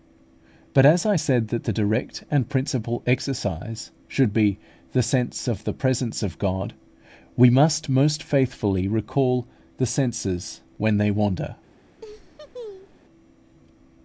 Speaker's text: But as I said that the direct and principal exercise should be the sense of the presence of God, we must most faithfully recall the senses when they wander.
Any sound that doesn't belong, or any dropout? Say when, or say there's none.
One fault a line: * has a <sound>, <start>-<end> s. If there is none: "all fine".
* has a laugh, 12.0-13.0 s